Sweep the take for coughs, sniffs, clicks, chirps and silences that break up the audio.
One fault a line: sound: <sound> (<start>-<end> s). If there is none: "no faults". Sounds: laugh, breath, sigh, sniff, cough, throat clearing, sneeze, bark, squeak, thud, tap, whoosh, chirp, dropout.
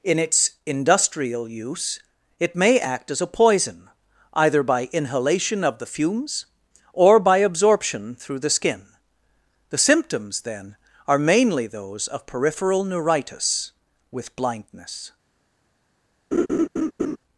sound: laugh (16.3-17.2 s)